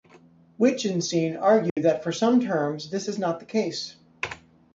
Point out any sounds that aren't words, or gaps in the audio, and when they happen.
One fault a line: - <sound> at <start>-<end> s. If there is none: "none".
- dropout at 1.7-1.8 s